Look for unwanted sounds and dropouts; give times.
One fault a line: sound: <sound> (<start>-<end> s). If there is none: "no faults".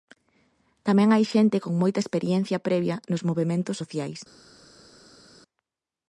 no faults